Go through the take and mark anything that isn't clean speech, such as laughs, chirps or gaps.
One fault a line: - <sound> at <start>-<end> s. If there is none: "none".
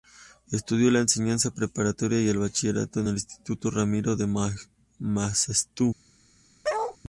- bark at 6.6-7.0 s